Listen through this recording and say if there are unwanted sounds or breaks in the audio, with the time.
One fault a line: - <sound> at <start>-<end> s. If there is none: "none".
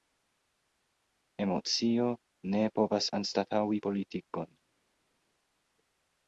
none